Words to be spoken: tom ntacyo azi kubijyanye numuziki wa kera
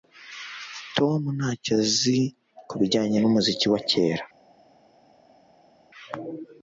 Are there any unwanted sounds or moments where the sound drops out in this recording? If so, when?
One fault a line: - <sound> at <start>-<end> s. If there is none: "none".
none